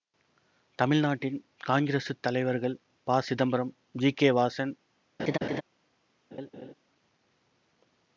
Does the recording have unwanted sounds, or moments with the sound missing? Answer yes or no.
yes